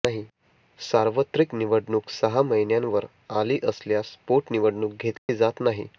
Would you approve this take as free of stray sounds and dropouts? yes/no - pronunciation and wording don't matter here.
no